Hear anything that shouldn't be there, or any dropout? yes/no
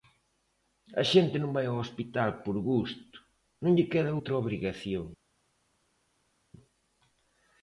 no